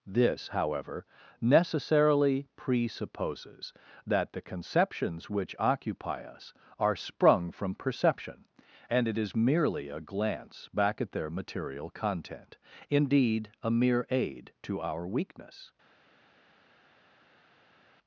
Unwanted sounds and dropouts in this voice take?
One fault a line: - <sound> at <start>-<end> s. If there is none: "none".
none